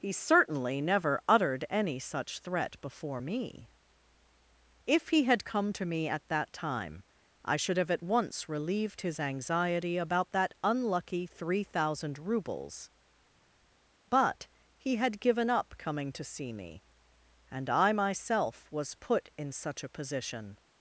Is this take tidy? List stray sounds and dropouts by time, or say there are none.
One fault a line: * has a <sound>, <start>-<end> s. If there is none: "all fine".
all fine